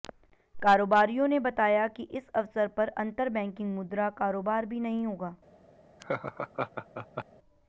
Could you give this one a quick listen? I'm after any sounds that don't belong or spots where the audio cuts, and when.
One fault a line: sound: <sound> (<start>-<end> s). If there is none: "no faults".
sound: laugh (6.0-7.2 s)